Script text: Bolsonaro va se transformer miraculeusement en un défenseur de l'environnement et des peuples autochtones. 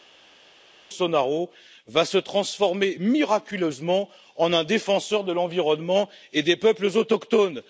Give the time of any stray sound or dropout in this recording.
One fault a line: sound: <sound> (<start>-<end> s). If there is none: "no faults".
no faults